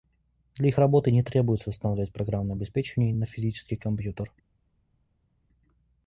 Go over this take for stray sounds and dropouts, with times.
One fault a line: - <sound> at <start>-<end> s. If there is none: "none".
none